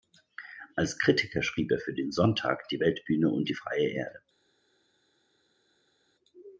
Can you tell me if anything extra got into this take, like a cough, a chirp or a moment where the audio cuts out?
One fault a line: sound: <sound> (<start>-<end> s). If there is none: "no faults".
no faults